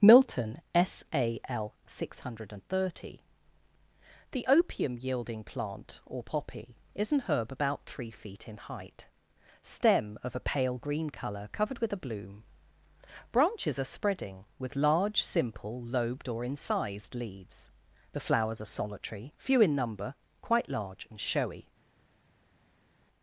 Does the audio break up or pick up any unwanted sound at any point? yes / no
no